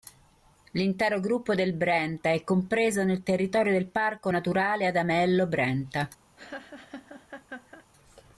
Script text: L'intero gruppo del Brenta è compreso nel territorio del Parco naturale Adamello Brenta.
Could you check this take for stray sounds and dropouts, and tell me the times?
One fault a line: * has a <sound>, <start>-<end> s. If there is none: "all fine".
* has a laugh, 6.4-7.8 s